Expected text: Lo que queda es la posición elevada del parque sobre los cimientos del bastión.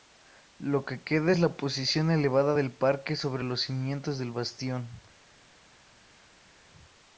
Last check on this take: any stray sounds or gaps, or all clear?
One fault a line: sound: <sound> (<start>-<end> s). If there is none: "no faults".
no faults